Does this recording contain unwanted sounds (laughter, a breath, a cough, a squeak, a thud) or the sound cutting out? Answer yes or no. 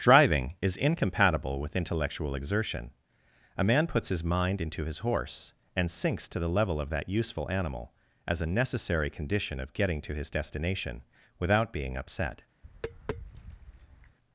yes